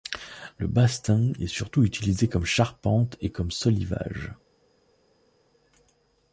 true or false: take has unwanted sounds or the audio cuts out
false